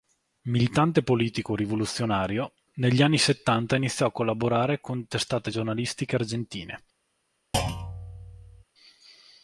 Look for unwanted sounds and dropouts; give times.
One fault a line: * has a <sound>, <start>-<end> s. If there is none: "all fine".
* has a thud, 7.5-8.6 s